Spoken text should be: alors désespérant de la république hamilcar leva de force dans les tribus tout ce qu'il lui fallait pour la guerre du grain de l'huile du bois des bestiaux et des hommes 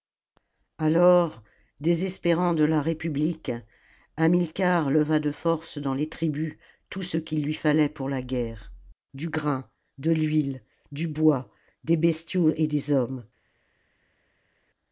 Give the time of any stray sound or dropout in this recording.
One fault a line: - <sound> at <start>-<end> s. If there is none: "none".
none